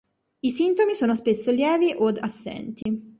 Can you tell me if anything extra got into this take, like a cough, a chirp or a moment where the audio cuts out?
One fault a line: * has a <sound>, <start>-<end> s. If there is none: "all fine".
* has a dropout, 2.8-2.9 s